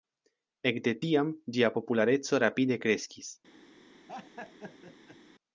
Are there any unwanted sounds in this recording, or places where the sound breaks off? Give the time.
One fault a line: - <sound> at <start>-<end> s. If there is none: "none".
- laugh at 4.1-5.2 s